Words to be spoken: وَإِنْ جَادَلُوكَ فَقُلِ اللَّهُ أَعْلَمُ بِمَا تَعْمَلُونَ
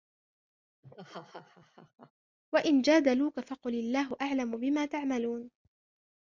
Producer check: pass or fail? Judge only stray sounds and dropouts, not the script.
fail